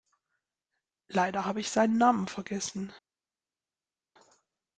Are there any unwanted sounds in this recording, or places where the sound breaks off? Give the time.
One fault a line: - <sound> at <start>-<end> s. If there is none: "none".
none